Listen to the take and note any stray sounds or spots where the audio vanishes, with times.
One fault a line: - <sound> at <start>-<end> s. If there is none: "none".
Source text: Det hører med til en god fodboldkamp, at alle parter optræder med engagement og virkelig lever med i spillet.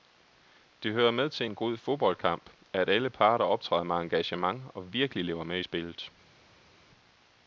none